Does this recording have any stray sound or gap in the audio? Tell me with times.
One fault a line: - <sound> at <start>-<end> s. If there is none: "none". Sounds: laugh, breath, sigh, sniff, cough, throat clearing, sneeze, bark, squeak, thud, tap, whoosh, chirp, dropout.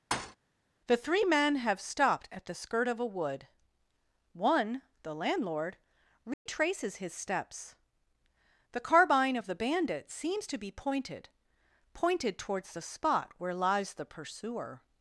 - thud at 0.1-0.4 s
- dropout at 6.3-6.5 s